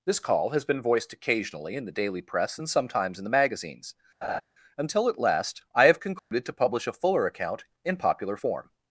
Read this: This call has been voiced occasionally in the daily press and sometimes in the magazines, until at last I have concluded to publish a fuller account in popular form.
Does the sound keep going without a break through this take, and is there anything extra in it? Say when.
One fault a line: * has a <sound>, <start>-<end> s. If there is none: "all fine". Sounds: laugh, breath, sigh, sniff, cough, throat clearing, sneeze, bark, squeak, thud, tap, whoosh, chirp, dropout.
* has a laugh, 4.2-4.4 s
* has a dropout, 6.2-6.3 s